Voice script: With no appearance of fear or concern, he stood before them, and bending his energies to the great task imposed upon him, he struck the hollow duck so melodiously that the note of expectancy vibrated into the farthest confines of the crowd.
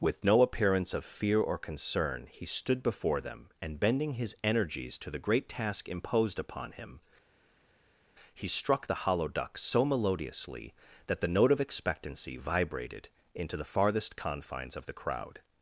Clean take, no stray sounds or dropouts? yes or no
yes